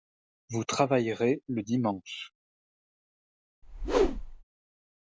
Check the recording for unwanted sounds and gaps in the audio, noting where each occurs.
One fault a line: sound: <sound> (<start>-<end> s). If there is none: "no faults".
sound: whoosh (3.6-4.4 s)